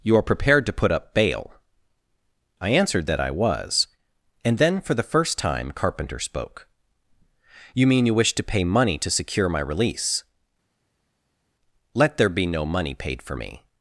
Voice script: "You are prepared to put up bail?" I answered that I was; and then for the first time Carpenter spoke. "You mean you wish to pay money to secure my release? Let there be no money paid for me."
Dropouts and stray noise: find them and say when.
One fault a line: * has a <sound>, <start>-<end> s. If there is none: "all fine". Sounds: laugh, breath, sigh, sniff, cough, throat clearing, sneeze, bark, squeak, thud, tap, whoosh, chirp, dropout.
all fine